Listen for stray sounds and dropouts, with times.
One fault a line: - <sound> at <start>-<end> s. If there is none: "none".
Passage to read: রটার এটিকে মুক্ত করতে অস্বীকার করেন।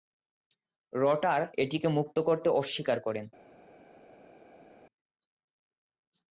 none